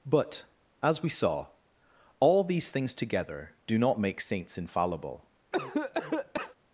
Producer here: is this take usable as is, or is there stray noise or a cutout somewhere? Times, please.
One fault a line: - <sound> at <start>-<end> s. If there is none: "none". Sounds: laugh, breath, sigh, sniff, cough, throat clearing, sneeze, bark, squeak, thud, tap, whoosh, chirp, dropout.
- cough at 5.5-6.6 s